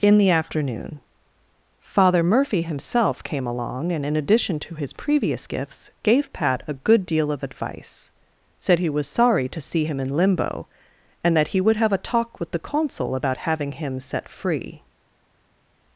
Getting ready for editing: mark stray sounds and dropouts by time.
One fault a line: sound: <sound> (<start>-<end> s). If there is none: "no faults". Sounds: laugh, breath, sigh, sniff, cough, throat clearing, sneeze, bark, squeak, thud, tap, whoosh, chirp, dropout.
no faults